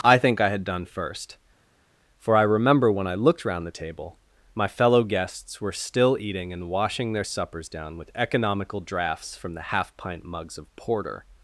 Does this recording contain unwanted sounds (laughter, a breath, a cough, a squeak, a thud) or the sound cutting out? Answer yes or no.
no